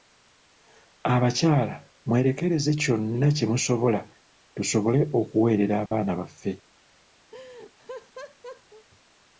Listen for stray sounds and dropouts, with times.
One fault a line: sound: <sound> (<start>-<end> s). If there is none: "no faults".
sound: dropout (5.9-5.9 s)
sound: laugh (7.3-8.9 s)